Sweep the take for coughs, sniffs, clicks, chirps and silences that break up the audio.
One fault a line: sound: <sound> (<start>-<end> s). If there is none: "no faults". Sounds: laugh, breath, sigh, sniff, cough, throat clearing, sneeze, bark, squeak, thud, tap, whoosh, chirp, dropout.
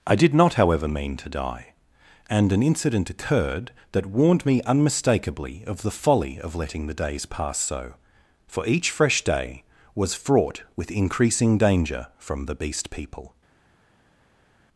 no faults